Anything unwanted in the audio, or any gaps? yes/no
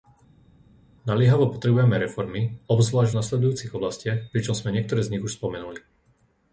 no